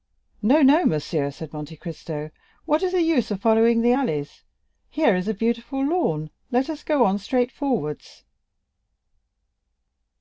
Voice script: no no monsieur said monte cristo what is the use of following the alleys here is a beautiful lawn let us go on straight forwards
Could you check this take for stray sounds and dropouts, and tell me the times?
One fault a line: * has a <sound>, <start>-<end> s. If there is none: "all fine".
all fine